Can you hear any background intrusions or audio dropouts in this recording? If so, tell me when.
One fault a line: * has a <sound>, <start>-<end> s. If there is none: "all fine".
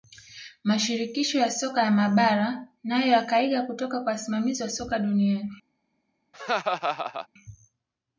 * has a laugh, 6.3-7.3 s